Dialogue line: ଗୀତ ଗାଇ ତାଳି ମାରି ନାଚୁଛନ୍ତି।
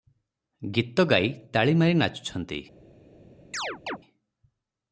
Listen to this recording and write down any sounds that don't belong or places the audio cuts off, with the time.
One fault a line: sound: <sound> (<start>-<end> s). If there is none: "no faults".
sound: chirp (3.5-4.0 s)